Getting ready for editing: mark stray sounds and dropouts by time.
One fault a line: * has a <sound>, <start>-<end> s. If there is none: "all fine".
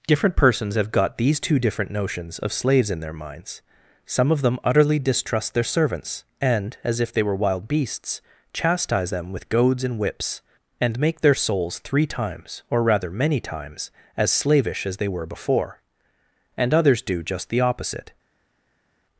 all fine